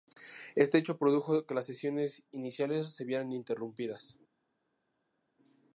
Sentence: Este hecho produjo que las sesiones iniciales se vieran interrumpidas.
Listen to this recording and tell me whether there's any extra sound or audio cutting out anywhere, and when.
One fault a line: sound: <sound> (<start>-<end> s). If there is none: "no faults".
no faults